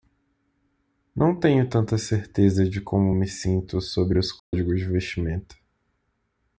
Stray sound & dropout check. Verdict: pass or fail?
fail